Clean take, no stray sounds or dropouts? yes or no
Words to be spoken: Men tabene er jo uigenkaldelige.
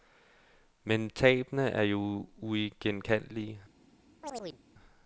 no